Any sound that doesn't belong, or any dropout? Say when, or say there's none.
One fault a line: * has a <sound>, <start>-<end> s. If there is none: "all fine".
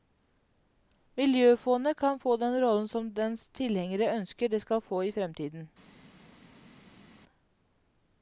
all fine